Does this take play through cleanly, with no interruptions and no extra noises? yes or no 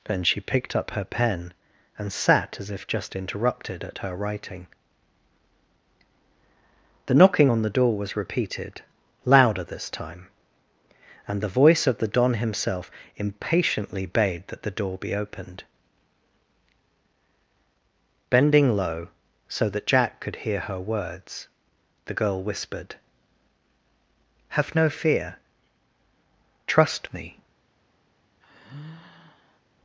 no